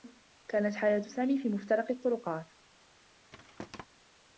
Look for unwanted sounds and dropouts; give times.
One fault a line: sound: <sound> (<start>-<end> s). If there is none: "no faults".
sound: thud (3.3-3.9 s)